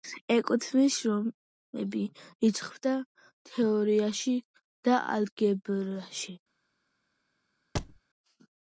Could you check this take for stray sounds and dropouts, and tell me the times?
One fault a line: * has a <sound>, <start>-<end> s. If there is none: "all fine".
* has a thud, 7.8-8.0 s